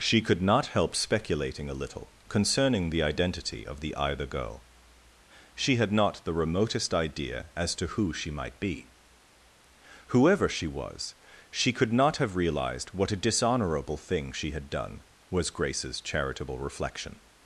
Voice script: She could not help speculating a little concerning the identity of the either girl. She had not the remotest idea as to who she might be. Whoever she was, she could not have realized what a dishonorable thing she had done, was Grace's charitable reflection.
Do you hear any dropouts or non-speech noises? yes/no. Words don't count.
no